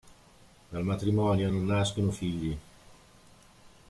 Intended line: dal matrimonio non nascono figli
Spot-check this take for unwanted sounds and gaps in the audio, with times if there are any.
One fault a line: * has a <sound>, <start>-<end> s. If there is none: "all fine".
all fine